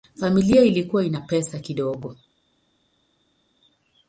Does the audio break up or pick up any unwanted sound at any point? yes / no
no